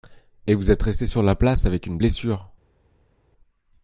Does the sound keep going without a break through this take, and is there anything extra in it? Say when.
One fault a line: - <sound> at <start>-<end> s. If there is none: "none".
none